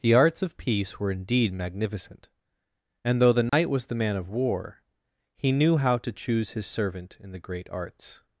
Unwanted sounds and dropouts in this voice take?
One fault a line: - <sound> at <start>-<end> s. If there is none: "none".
- dropout at 3.5-3.5 s